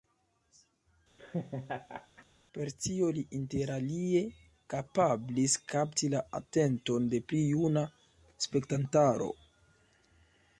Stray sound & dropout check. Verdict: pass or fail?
fail